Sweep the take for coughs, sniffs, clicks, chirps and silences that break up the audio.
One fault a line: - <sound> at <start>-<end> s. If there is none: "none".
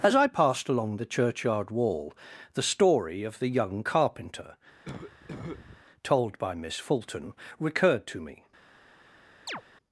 - cough at 4.9-5.8 s
- chirp at 9.5-9.6 s